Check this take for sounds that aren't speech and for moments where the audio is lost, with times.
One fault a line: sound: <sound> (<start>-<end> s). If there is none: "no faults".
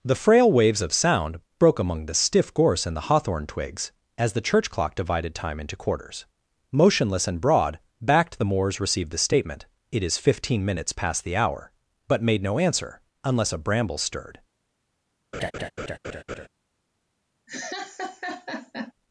sound: laugh (15.3-16.5 s)
sound: laugh (17.5-18.9 s)